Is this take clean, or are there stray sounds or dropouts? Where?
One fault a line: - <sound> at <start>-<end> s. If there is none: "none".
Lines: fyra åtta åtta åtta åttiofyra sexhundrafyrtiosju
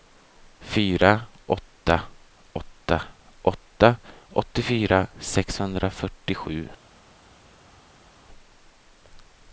none